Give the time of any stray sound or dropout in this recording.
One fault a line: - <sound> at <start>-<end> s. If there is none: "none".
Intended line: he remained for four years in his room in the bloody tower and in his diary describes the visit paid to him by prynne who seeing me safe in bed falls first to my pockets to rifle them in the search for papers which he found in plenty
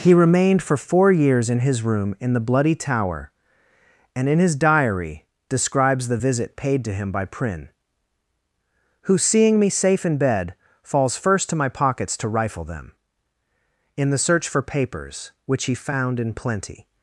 none